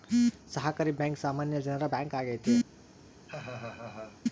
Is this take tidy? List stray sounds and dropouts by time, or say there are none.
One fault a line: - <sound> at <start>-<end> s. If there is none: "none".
- laugh at 3.3-4.2 s